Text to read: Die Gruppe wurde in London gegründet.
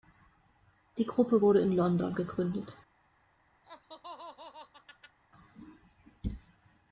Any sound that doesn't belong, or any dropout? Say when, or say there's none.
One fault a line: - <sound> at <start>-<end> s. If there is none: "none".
- laugh at 3.6-5.2 s